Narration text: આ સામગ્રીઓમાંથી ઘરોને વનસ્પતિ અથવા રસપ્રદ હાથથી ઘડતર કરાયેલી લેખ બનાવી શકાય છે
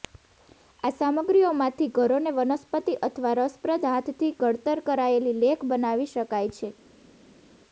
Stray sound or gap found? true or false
false